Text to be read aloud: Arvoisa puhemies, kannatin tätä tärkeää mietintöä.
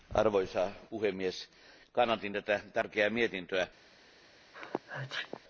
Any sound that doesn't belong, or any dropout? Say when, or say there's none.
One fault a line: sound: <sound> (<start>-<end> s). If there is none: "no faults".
sound: sneeze (4.5-5.4 s)